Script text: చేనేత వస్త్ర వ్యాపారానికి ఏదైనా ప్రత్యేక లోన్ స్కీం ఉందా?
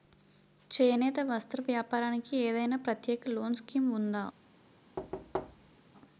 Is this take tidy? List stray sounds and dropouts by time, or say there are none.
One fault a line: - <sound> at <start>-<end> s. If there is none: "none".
- thud at 5.0-5.8 s